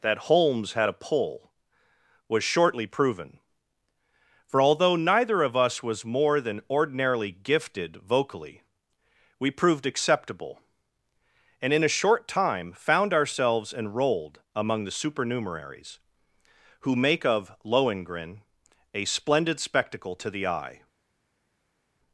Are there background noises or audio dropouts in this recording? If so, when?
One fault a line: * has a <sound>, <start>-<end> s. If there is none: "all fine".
all fine